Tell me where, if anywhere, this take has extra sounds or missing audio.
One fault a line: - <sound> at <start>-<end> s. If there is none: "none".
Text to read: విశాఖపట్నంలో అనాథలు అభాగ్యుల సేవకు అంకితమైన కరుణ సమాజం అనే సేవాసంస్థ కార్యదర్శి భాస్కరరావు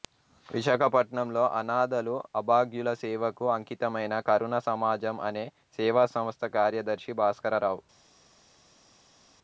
none